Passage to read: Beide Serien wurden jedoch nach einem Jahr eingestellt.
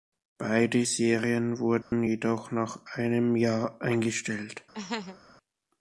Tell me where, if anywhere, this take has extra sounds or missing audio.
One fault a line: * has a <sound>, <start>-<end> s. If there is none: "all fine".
* has a dropout, 1.8-1.9 s
* has a laugh, 4.7-5.2 s